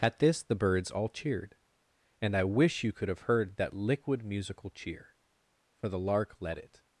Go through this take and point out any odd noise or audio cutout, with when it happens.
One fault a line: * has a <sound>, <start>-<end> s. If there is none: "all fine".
all fine